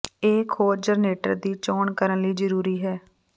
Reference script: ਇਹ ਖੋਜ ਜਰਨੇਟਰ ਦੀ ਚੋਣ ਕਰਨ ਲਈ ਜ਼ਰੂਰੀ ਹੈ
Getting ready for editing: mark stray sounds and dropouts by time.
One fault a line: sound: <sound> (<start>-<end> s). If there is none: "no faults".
no faults